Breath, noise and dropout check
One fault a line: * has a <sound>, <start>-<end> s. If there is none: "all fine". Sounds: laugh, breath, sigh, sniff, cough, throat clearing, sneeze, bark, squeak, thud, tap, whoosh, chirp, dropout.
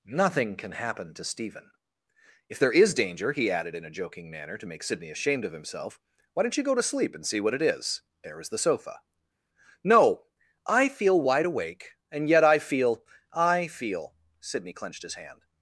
all fine